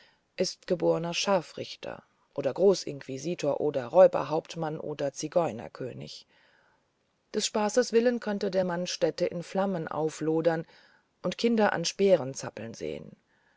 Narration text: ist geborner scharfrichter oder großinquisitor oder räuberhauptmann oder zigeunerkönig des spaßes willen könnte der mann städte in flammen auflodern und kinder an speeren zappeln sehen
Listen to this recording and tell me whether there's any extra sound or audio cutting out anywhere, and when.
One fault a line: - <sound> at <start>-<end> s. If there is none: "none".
none